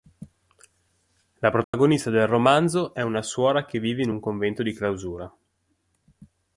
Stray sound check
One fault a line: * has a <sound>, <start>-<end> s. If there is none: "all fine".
* has a dropout, 1.6-1.7 s